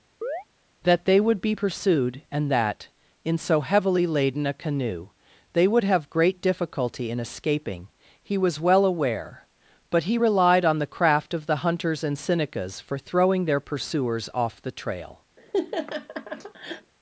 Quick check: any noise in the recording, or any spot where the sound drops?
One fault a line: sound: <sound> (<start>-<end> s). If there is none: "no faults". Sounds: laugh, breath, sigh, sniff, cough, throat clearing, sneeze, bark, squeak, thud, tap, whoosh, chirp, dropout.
sound: chirp (0.2-0.4 s)
sound: laugh (15.4-16.9 s)